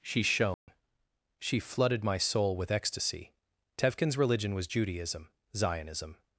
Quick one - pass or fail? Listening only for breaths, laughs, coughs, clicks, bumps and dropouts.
fail